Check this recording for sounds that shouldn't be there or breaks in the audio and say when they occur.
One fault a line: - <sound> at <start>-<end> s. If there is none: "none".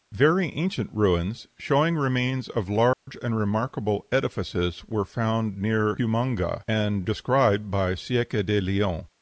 - dropout at 2.9-3.1 s